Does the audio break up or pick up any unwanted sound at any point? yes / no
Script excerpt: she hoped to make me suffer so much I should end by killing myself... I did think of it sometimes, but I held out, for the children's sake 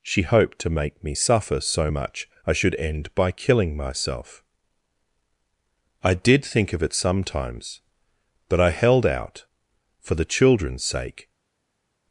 no